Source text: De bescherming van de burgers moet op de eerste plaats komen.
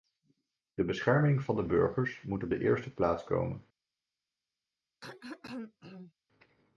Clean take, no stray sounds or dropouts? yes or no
no